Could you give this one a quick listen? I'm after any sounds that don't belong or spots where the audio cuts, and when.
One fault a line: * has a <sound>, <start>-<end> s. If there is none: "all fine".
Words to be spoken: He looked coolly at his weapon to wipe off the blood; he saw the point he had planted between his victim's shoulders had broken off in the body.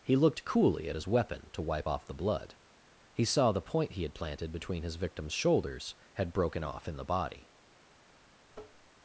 * has a tap, 8.5-8.9 s